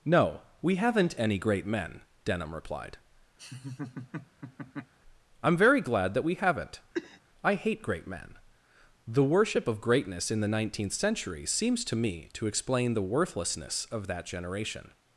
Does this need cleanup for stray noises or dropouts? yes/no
yes